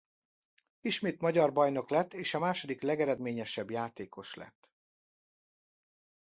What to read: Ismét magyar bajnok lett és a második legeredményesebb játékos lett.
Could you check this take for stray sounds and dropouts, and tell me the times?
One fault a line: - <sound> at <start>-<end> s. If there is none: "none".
none